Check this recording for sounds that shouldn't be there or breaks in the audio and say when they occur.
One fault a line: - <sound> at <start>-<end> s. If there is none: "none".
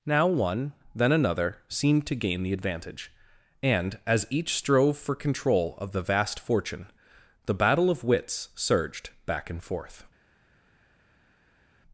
none